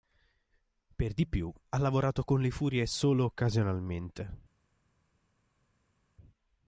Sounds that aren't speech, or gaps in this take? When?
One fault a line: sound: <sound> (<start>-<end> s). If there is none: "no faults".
no faults